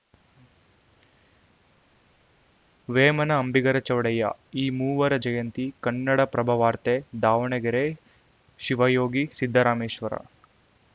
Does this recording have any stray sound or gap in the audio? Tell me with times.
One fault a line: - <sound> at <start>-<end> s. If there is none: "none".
none